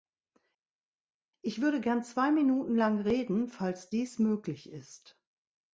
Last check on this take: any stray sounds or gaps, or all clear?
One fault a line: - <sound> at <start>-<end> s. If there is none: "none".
none